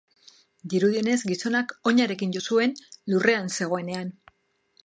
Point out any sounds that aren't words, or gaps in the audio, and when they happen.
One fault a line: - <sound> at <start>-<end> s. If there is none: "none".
none